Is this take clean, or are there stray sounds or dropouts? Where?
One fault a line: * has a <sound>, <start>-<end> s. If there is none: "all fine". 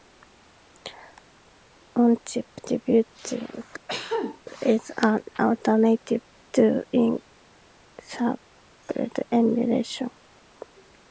* has a cough, 3.9-4.4 s